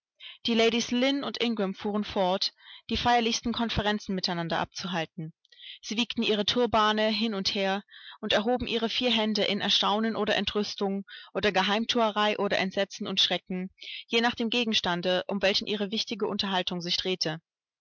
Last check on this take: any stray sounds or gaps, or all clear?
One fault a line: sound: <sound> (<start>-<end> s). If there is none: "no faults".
no faults